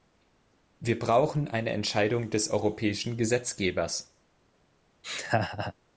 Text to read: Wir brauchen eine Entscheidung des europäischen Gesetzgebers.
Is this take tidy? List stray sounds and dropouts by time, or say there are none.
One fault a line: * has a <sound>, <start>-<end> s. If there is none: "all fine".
* has a laugh, 5.0-5.7 s